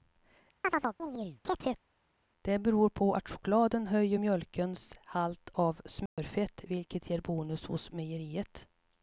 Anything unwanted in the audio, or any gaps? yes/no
yes